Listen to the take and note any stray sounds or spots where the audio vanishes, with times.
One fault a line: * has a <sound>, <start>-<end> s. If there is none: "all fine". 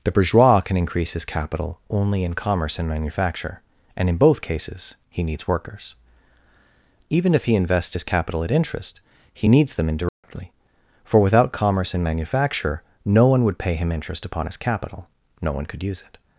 * has a dropout, 10.1-10.2 s